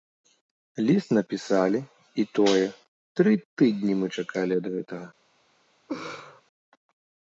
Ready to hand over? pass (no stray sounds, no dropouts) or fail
fail